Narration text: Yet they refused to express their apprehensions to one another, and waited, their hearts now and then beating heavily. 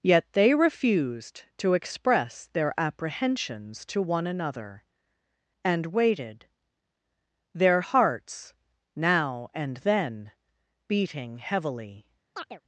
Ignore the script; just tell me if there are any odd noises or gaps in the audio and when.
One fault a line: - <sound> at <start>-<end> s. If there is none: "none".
- chirp at 12.3-12.6 s